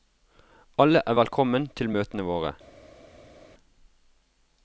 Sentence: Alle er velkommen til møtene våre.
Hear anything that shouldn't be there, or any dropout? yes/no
no